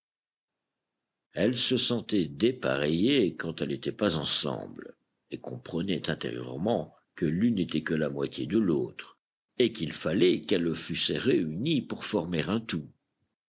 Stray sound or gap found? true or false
false